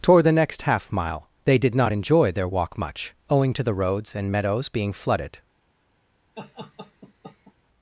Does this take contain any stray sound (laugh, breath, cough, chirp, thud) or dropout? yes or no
yes